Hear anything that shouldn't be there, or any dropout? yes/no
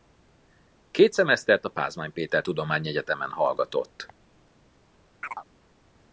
yes